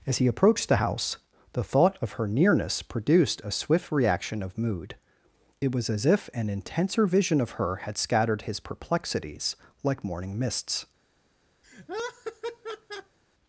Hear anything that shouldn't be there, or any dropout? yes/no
yes